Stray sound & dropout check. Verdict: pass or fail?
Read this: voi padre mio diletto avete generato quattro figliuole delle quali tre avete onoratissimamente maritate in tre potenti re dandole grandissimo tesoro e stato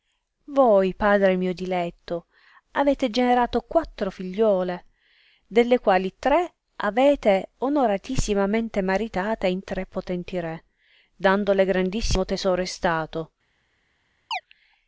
fail